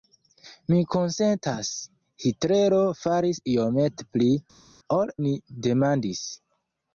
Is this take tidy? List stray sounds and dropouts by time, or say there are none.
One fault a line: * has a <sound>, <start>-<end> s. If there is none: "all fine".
all fine